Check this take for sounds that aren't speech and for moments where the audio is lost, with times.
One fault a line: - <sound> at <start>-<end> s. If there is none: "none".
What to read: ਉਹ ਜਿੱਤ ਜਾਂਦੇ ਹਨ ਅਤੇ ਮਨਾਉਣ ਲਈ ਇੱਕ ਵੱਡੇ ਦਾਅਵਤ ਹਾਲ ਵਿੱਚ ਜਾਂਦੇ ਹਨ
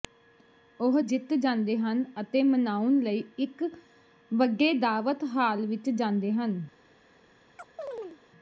- chirp at 7.6-8.2 s